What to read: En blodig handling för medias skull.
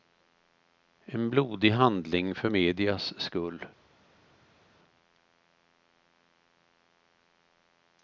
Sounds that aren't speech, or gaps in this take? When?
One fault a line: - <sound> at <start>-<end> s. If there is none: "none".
none